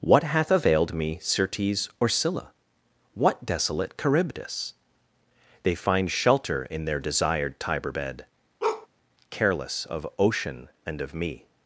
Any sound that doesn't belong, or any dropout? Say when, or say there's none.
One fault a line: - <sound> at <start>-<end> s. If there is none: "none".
- bark at 8.6-8.9 s